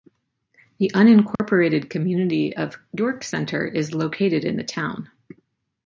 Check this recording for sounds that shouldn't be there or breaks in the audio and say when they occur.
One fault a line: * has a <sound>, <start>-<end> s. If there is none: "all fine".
* has a dropout, 1.4-1.4 s